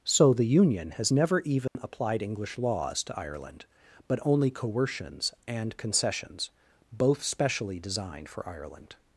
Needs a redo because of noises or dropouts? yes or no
yes